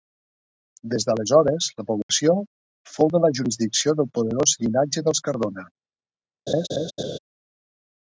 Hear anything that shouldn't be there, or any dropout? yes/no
yes